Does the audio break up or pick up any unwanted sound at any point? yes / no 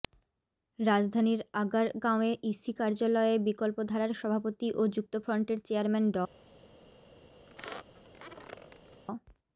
yes